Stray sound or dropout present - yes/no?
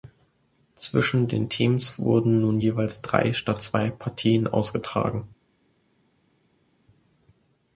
no